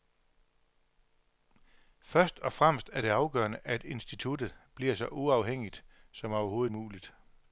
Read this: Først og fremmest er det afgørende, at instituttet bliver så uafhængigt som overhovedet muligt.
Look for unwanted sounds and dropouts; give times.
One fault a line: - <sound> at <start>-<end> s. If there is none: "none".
none